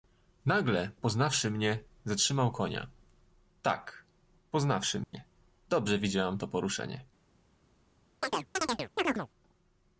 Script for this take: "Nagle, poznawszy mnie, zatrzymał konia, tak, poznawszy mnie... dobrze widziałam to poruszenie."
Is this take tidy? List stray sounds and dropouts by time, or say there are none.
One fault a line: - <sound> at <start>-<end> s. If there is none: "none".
- dropout at 5.0-5.1 s
- chirp at 8.2-9.3 s